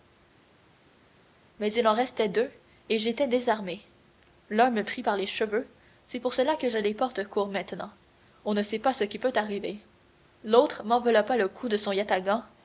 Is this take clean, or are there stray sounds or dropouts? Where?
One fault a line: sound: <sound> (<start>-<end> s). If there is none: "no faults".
no faults